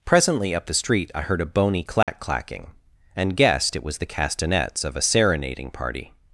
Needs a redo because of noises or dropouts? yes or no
yes